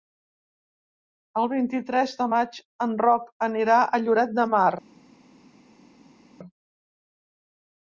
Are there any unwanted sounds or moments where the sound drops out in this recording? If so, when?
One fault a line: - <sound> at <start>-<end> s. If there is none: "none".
none